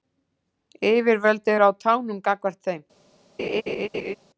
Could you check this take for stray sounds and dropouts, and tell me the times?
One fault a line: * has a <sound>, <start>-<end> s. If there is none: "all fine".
* has a laugh, 3.4-4.2 s